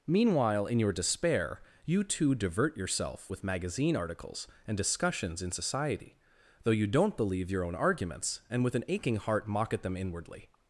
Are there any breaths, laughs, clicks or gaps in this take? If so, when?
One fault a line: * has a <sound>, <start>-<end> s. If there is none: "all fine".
all fine